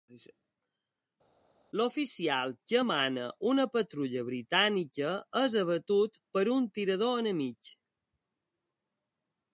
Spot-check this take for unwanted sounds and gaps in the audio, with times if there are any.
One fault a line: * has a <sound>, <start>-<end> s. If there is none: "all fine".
all fine